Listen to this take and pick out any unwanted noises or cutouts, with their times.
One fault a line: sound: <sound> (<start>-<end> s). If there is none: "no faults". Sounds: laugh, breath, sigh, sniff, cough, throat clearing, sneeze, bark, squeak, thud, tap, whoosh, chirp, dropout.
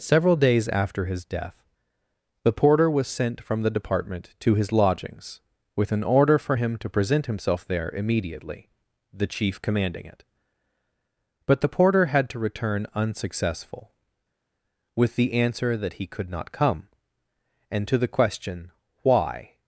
no faults